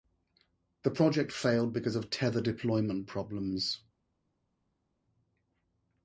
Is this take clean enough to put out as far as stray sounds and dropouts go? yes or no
yes